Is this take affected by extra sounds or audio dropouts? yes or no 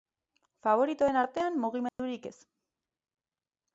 yes